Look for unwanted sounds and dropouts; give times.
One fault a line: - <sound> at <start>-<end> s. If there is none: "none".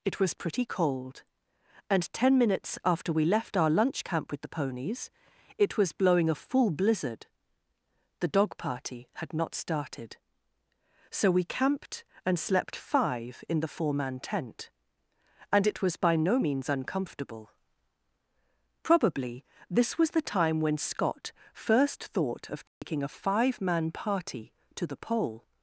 - dropout at 22.7-22.8 s